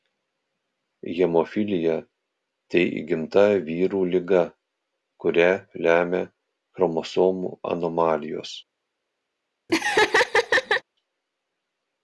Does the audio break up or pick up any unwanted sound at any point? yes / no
yes